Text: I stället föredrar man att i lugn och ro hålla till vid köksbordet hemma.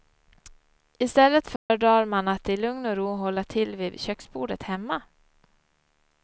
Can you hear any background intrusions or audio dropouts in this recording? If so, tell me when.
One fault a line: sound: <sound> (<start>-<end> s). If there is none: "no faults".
sound: dropout (1.6-1.7 s)